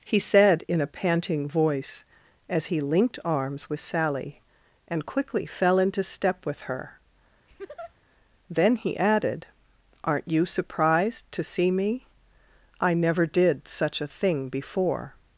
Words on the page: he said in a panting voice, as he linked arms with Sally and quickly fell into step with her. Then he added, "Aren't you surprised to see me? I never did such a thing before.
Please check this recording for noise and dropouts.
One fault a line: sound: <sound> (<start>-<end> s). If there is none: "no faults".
sound: laugh (7.5-7.9 s)